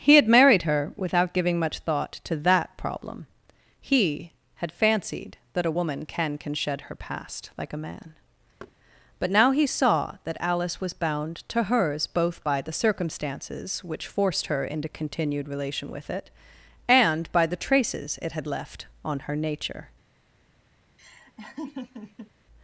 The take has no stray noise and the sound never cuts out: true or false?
false